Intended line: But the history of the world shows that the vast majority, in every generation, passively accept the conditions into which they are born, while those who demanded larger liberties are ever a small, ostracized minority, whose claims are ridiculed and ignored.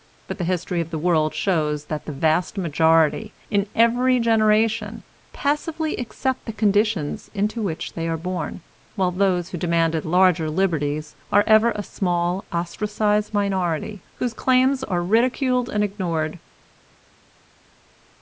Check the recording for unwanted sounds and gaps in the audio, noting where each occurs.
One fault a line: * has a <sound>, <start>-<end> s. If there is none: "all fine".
all fine